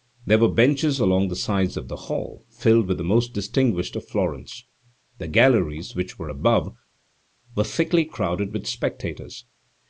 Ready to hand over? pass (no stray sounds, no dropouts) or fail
pass